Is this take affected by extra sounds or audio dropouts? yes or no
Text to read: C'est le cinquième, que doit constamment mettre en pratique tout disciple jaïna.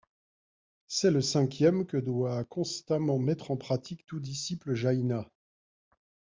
no